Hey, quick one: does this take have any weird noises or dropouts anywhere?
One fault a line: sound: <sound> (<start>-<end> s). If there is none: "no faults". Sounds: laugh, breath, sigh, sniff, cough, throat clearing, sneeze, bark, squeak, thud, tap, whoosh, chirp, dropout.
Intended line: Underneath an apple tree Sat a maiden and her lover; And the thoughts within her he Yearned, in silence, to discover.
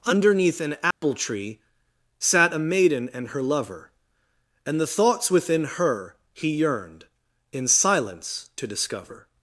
sound: dropout (0.9-1.0 s)